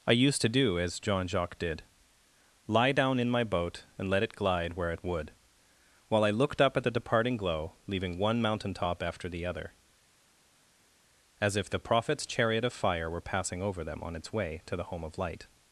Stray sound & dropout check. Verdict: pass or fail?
pass